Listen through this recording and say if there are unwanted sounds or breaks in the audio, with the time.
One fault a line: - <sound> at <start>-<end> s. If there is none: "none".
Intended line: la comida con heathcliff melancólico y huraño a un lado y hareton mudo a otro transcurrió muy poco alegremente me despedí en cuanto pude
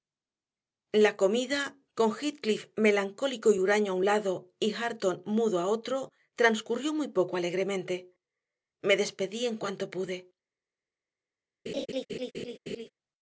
- laugh at 11.7-12.9 s